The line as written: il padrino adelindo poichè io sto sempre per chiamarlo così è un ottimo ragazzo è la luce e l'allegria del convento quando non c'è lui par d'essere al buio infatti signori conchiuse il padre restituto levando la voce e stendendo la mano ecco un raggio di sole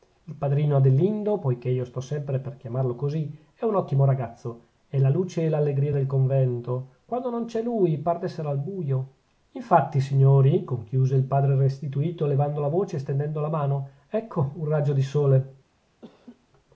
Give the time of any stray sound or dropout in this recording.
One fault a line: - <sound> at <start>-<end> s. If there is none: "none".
- laugh at 16.0-16.5 s